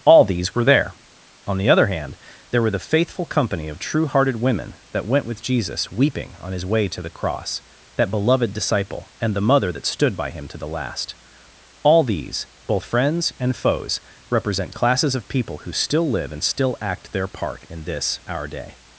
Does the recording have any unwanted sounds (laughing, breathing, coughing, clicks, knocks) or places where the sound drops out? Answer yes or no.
no